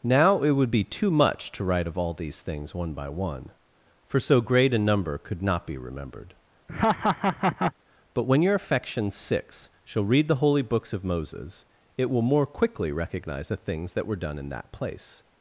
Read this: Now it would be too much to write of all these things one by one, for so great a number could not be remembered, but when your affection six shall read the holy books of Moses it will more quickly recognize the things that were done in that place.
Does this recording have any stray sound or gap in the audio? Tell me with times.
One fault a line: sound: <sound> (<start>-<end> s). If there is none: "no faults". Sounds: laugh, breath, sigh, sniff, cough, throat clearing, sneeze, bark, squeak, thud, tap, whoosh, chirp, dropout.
sound: laugh (6.7-7.7 s)